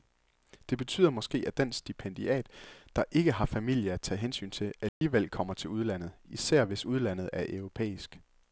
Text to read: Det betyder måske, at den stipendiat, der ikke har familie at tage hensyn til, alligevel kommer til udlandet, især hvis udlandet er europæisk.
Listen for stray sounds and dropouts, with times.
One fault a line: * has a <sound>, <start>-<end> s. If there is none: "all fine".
* has a dropout, 4.9-5.0 s